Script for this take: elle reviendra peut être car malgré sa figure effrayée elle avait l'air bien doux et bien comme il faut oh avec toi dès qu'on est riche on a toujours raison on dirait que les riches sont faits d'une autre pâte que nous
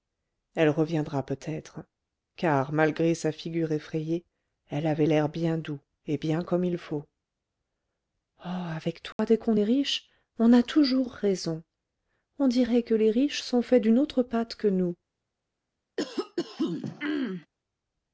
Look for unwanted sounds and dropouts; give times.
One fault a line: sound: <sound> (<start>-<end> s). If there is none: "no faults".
sound: dropout (9.1-9.2 s)
sound: throat clearing (16.0-17.5 s)